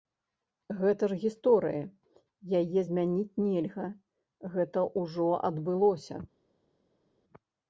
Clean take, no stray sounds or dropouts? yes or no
yes